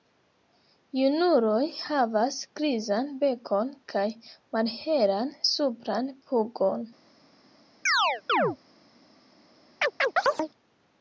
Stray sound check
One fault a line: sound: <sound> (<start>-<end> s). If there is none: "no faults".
sound: chirp (7.9-8.6 s)
sound: chirp (9.8-10.5 s)